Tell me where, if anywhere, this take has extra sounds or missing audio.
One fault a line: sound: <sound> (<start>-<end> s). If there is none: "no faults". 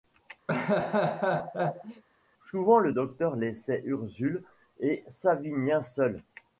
sound: laugh (0.5-2.0 s)